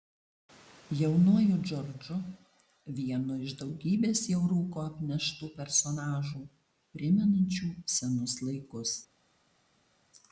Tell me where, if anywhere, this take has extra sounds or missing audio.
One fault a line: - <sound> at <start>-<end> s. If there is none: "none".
none